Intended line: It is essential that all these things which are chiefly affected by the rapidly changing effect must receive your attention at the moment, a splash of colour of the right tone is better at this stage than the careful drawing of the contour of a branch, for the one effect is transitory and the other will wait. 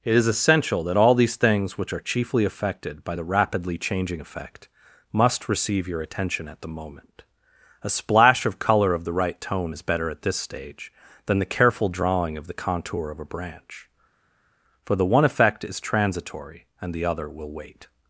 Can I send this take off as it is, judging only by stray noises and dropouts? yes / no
yes